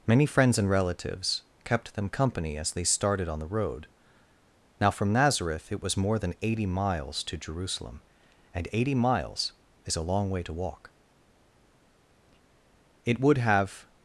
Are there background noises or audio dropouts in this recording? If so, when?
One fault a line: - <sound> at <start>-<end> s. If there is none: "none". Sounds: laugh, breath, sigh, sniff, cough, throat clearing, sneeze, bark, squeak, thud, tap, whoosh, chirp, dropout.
none